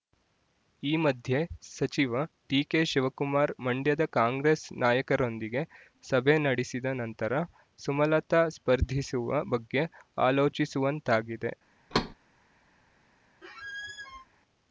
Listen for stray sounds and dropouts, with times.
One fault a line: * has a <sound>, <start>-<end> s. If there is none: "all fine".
* has a thud, 11.9-12.2 s
* has a squeak, 13.4-14.3 s